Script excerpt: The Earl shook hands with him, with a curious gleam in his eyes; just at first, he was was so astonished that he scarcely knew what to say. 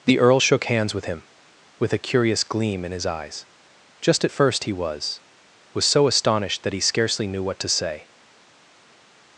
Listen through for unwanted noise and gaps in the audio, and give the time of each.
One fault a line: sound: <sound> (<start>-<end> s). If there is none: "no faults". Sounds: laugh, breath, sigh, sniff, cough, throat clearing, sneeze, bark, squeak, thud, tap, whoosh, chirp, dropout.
no faults